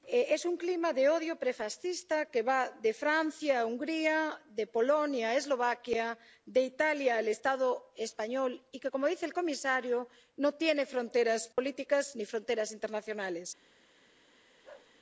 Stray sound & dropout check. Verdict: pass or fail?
fail